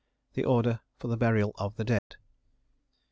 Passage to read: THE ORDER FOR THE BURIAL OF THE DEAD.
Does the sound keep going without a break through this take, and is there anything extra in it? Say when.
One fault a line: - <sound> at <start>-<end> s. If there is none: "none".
- dropout at 2.0-2.1 s